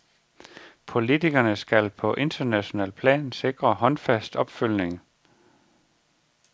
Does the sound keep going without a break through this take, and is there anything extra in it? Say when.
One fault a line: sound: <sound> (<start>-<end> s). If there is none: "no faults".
no faults